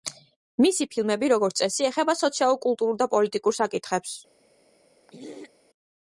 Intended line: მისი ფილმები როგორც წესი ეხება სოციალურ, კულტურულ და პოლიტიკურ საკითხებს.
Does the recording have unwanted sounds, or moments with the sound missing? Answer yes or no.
yes